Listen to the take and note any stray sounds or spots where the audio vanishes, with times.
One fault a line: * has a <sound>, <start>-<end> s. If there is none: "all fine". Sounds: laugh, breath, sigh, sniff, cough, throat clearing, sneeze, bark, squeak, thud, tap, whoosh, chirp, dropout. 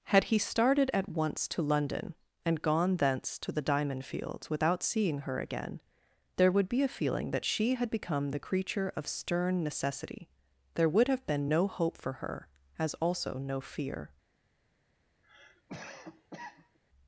* has a cough, 15.2-16.8 s